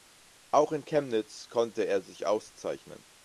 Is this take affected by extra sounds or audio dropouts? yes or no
no